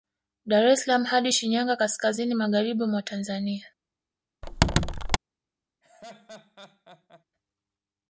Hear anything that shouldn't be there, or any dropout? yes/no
yes